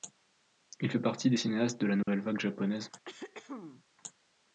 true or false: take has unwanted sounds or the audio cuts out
true